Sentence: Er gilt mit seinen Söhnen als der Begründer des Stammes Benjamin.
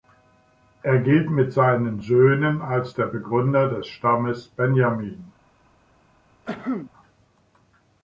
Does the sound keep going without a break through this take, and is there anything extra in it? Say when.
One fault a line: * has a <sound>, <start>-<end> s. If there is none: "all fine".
* has a cough, 6.5-6.9 s